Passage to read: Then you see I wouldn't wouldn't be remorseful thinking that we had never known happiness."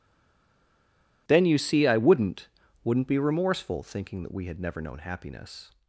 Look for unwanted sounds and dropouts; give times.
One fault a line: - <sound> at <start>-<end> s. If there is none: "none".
none